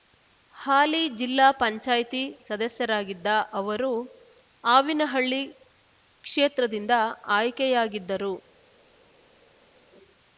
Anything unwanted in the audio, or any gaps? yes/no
no